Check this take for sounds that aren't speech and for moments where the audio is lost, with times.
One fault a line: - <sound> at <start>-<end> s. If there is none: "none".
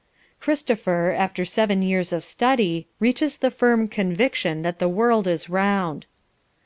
none